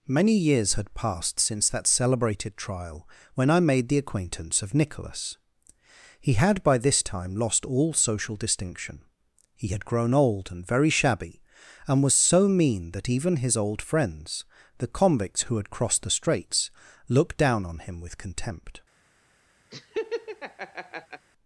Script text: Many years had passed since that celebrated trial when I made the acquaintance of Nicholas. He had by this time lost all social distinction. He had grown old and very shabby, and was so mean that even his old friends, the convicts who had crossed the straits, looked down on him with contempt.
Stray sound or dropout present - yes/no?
yes